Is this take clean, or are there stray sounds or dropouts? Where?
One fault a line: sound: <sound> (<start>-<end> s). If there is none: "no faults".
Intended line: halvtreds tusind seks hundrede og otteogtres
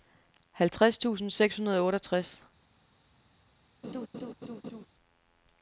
sound: laugh (3.8-4.9 s)